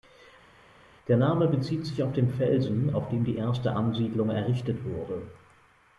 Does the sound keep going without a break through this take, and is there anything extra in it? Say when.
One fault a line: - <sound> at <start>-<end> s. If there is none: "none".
none